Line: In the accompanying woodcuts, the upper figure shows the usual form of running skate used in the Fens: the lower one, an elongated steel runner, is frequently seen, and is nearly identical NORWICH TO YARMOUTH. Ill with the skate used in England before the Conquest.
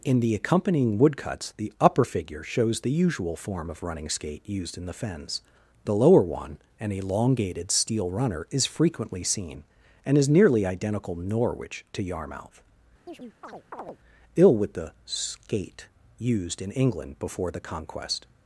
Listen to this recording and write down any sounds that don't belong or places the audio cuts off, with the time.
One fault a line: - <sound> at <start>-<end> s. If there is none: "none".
- chirp at 13.1-14.0 s